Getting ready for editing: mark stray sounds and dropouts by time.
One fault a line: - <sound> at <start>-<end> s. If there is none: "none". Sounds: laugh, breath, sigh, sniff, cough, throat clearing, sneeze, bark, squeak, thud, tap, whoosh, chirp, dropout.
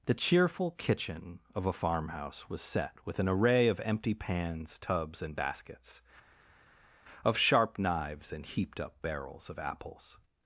none